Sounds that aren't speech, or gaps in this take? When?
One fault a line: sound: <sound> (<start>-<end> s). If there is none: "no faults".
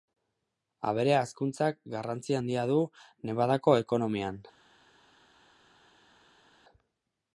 no faults